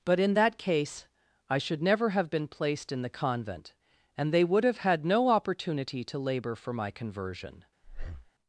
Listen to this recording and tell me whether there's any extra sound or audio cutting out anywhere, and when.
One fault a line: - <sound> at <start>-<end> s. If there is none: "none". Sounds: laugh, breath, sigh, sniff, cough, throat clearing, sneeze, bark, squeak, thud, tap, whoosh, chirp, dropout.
- breath at 7.8-8.3 s